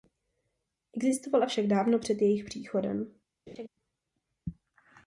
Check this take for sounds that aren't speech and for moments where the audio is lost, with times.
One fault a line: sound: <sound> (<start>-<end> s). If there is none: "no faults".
sound: laugh (3.5-3.7 s)